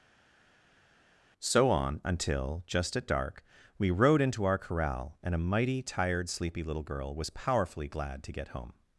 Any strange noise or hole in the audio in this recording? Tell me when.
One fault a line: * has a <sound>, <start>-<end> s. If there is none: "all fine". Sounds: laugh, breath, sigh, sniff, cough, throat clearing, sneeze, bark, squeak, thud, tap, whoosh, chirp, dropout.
all fine